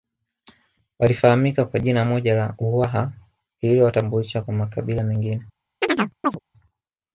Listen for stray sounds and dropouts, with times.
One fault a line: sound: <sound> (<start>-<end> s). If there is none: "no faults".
sound: chirp (5.8-6.4 s)